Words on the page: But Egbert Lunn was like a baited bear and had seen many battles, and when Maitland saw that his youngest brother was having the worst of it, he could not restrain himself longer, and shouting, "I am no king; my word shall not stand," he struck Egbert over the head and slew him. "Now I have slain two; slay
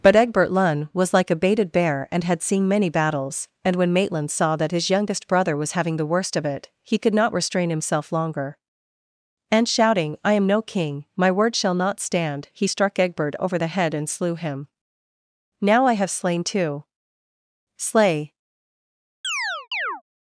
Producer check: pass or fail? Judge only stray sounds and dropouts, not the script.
fail